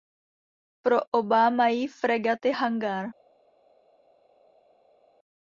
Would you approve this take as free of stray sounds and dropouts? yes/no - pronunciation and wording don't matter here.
yes